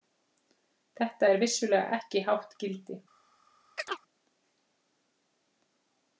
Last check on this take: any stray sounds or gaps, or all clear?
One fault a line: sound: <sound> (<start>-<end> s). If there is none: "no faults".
sound: chirp (3.8-4.0 s)